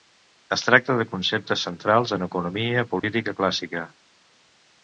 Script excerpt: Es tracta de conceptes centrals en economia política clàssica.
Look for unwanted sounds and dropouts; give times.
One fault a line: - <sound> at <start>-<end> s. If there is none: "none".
- dropout at 3.0-3.0 s